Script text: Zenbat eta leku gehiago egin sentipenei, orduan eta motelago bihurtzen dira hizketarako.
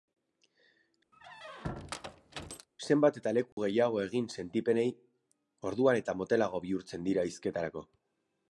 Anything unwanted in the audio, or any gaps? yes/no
yes